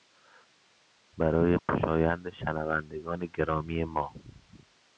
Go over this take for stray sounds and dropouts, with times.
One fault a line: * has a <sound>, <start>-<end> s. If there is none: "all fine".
* has a dropout, 1.6-1.7 s